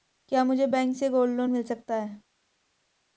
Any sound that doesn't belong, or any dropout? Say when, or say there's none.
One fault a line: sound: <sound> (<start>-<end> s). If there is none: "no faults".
no faults